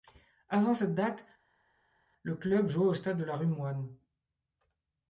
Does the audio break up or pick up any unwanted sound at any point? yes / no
no